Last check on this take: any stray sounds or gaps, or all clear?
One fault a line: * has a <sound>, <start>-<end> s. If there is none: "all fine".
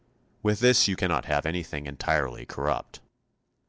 all fine